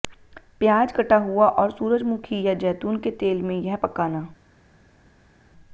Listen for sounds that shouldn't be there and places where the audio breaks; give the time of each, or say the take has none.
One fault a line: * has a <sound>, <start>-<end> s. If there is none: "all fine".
all fine